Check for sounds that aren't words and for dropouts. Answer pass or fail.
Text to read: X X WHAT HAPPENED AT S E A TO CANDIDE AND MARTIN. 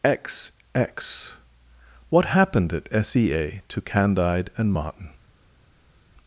pass